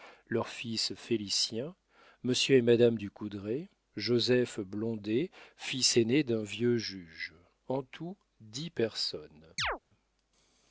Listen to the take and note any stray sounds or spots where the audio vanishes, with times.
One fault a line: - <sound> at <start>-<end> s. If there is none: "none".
- chirp at 9.6-9.8 s